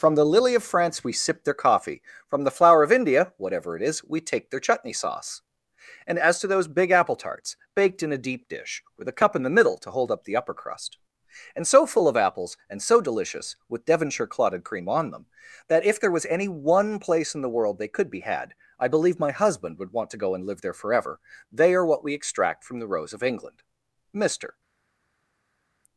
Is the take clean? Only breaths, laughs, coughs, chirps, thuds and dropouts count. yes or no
yes